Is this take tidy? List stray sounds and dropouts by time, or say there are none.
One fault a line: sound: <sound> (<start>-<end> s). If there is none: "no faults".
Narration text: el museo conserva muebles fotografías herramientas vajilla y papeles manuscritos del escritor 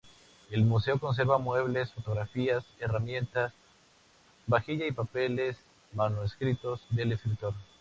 no faults